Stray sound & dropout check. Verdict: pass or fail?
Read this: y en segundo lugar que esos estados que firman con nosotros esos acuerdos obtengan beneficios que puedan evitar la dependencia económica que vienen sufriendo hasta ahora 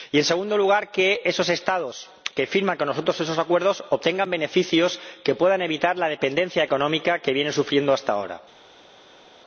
pass